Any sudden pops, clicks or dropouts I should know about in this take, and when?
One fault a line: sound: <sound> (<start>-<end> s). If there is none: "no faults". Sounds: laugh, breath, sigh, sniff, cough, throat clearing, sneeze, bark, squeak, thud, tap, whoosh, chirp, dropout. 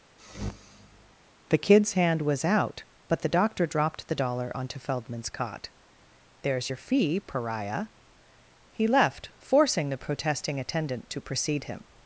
sound: sniff (0.2-1.1 s)